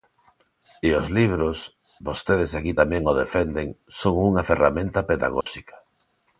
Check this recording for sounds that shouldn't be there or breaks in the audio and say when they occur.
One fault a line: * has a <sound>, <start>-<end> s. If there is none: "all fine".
* has a dropout, 5.4-5.5 s